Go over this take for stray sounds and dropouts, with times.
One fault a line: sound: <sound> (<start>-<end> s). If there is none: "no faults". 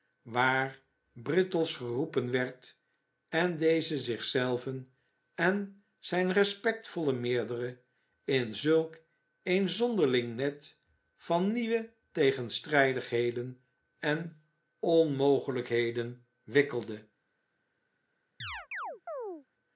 sound: chirp (18.4-19.5 s)